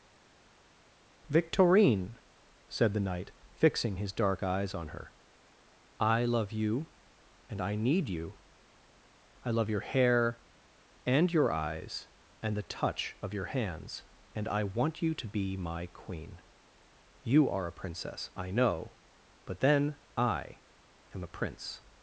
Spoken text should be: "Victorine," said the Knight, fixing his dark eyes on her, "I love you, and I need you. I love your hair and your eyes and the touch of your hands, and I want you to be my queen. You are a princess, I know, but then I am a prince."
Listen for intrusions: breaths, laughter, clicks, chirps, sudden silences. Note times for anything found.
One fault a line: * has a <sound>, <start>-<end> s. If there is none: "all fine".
all fine